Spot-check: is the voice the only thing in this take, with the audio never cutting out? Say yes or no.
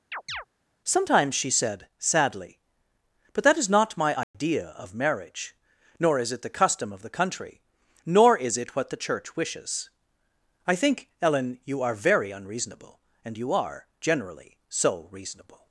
no